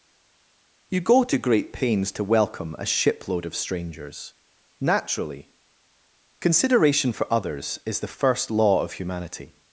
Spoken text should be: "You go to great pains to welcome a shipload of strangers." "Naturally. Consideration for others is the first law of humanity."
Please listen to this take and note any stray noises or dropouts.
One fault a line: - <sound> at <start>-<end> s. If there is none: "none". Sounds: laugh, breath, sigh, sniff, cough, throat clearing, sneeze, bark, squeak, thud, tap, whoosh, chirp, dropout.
none